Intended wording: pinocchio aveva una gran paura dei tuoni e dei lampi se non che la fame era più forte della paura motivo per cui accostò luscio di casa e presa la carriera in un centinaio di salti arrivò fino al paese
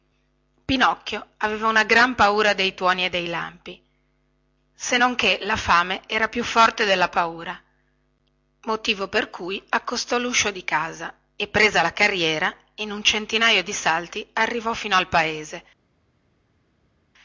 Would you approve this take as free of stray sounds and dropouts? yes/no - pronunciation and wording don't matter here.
yes